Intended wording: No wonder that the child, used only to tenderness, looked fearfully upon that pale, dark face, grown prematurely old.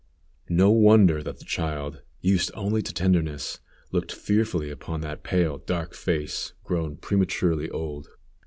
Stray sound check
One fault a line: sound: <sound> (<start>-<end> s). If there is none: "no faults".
no faults